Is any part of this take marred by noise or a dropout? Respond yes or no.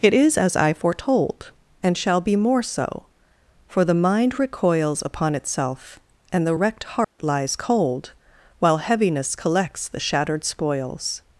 yes